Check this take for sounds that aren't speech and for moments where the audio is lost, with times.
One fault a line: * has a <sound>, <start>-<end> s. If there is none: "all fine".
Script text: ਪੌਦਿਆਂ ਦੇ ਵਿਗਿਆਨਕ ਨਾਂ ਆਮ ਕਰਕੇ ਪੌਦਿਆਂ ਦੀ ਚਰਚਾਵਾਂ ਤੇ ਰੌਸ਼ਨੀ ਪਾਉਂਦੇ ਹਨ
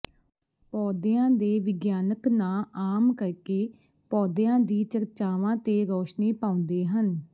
all fine